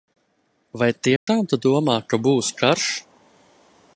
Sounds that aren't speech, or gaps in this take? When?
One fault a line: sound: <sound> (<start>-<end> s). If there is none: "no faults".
sound: dropout (1.2-1.3 s)